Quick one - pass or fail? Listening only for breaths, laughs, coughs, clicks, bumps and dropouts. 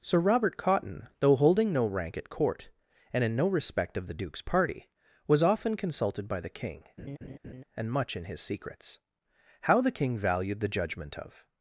fail